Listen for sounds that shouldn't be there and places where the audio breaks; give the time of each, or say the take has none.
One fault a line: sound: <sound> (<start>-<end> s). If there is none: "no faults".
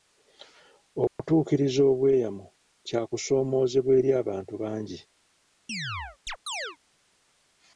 sound: dropout (1.1-1.2 s)
sound: chirp (5.7-6.8 s)